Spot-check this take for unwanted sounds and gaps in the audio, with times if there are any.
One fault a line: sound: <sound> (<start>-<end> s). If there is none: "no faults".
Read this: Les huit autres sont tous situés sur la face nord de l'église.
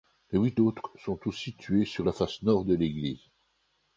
no faults